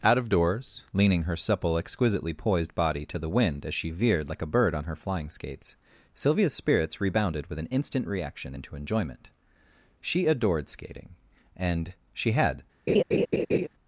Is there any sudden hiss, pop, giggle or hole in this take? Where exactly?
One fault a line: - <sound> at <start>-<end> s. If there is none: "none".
- laugh at 12.9-13.7 s